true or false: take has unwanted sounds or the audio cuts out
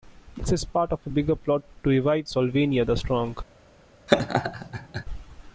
true